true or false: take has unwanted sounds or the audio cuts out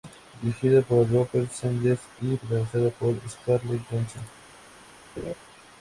true